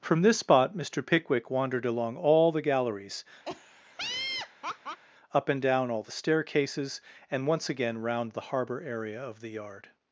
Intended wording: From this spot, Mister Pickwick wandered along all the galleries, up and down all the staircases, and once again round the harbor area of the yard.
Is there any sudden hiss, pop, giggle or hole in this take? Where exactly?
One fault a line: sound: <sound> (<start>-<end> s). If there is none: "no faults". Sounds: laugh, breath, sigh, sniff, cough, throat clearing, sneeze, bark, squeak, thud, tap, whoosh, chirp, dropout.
sound: laugh (3.5-5.0 s)